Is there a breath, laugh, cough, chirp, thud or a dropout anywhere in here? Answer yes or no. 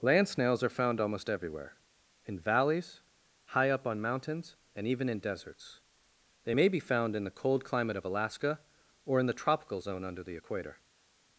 no